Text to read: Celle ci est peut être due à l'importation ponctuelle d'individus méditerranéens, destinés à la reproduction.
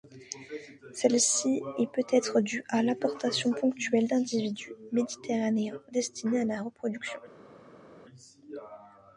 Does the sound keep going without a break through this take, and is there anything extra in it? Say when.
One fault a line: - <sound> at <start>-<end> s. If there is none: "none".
none